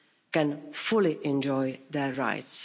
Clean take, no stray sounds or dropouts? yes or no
yes